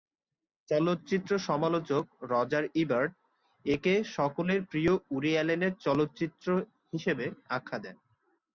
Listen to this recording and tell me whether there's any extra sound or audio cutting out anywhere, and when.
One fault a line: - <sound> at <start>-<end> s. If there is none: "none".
none